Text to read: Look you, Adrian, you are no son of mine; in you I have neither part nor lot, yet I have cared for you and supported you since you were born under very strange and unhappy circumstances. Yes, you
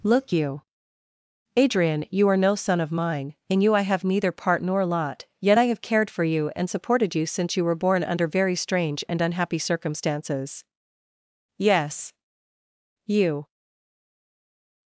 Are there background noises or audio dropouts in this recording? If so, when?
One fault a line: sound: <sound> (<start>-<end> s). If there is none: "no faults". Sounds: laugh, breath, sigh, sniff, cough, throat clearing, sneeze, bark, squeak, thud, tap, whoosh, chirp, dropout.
no faults